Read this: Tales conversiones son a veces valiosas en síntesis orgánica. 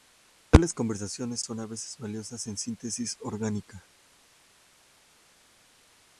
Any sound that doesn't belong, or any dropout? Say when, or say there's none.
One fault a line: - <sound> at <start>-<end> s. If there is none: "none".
none